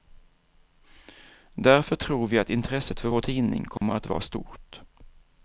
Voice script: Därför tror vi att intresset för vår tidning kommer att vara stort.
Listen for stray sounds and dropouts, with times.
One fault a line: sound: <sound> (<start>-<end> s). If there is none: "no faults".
sound: dropout (3.8-3.8 s)